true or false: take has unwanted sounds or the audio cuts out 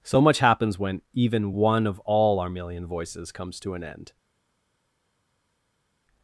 false